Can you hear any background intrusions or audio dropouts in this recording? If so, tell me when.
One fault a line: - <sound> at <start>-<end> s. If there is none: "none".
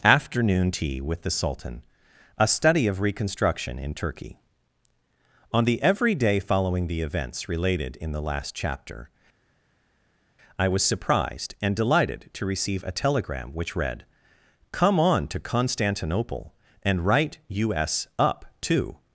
none